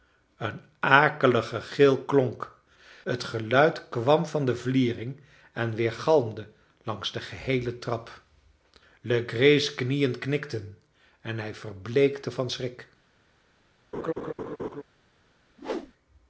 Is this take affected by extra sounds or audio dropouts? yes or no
yes